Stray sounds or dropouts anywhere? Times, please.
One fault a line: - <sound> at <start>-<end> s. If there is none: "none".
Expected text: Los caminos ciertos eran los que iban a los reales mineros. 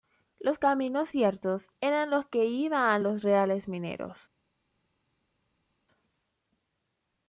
none